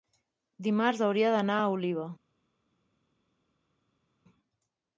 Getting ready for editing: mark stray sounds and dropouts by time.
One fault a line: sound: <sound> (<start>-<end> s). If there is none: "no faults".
no faults